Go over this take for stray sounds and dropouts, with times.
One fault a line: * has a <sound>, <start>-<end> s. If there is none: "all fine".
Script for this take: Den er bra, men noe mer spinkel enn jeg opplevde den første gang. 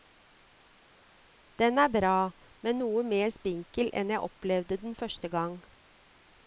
all fine